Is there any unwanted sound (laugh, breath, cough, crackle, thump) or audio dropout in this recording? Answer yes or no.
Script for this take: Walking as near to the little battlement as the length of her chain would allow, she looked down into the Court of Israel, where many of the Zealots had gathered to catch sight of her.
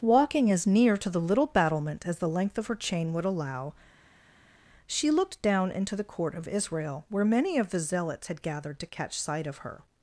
no